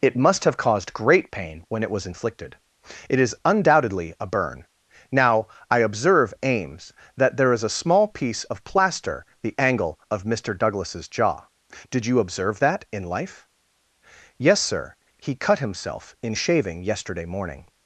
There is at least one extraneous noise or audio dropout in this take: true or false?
false